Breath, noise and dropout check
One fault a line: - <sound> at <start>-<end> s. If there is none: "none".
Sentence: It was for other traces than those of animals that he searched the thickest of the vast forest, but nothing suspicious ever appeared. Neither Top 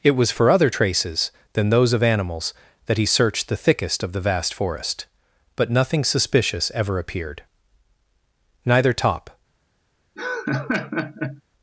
- laugh at 10.2-11.4 s